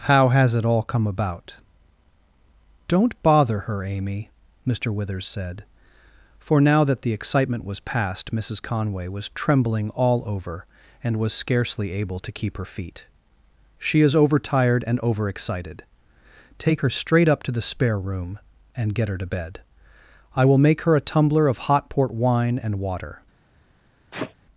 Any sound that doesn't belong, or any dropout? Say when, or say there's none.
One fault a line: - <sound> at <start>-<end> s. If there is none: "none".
- sneeze at 24.1-24.3 s